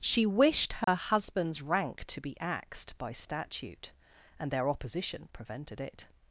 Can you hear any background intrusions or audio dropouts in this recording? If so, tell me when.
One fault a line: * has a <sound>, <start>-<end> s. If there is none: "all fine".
* has a dropout, 0.8-0.9 s